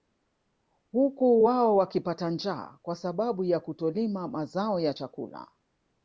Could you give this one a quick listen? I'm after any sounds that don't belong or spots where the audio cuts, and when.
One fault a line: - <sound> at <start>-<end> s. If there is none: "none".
none